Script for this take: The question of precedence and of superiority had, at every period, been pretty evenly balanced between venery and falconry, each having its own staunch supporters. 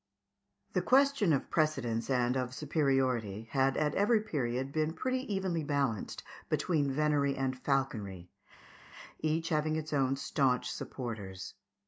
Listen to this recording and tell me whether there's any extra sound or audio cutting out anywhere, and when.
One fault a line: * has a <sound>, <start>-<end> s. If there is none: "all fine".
all fine